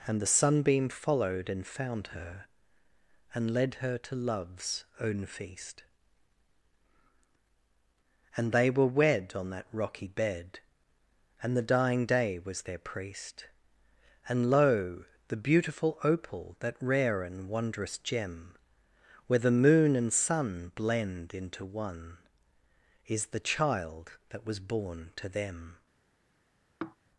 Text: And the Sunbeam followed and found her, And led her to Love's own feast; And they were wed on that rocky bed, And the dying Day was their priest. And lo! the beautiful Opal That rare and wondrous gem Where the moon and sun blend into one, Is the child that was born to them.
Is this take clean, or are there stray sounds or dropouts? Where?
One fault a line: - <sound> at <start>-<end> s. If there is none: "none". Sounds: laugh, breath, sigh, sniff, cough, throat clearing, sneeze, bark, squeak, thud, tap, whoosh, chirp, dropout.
- sigh at 26.8-27.0 s